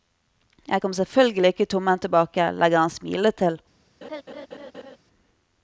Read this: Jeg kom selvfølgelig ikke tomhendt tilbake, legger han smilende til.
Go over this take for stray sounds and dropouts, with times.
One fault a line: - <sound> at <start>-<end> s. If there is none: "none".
- laugh at 4.0-5.0 s